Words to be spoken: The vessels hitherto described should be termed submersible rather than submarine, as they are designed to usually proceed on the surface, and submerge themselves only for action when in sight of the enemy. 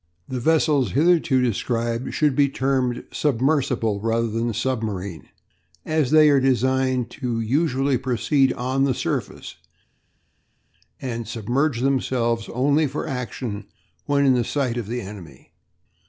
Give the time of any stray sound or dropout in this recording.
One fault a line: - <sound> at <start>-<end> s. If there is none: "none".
none